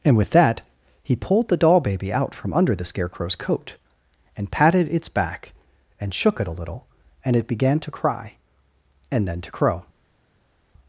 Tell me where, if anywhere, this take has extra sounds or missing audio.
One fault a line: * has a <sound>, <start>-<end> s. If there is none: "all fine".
all fine